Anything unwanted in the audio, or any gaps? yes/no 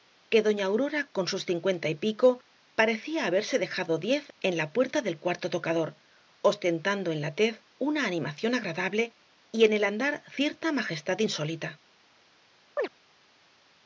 yes